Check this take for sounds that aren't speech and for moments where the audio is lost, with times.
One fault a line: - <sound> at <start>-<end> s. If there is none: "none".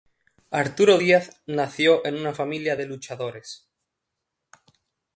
none